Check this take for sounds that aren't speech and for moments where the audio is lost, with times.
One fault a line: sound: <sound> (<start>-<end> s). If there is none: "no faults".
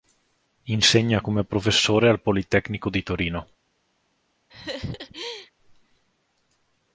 sound: laugh (4.5-5.5 s)